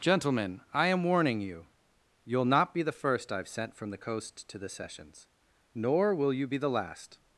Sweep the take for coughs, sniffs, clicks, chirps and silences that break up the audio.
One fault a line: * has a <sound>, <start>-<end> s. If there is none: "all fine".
all fine